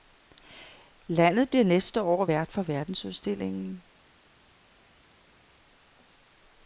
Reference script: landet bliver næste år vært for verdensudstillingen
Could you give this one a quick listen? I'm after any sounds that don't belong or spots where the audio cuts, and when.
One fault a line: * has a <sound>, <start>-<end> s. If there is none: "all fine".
all fine